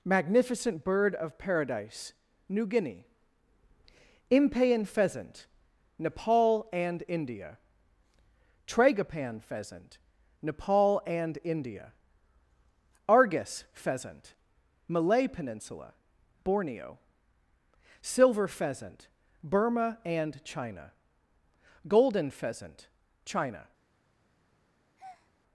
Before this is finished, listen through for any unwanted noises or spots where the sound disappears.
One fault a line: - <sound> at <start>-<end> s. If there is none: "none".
- breath at 25.0-25.3 s